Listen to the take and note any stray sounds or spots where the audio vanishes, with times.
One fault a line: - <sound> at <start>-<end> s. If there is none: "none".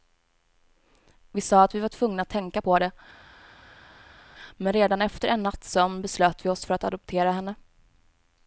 none